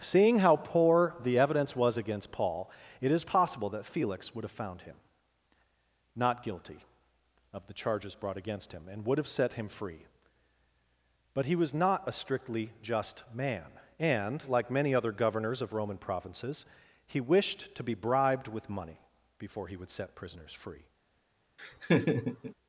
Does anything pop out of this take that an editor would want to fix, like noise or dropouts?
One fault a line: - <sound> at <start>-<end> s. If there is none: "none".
- laugh at 21.6-22.5 s